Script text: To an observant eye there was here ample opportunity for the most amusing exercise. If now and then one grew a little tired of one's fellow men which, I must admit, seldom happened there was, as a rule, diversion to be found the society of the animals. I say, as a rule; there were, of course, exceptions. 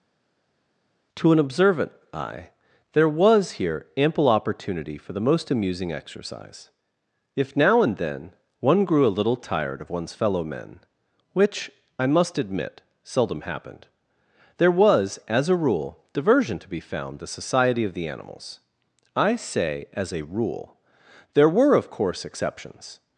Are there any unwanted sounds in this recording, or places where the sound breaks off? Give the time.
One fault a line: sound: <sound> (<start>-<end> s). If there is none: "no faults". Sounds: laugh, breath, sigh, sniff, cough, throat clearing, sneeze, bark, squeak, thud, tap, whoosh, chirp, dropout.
no faults